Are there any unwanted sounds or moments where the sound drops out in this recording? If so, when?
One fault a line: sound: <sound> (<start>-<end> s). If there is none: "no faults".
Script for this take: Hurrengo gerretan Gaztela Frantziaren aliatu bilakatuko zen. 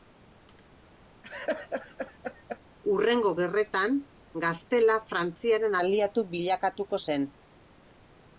sound: laugh (1.2-2.6 s)